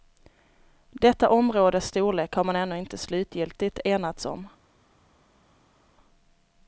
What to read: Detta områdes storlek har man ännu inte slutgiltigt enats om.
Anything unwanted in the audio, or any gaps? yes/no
no